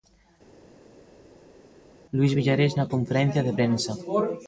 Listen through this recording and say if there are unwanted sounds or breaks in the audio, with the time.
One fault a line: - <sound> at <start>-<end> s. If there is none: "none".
none